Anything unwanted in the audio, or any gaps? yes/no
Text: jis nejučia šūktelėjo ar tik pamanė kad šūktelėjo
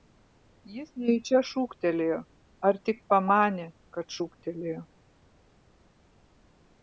no